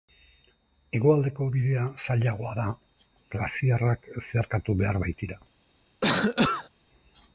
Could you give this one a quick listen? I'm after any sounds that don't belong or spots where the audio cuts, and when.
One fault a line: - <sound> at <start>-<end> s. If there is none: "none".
- cough at 6.0-6.7 s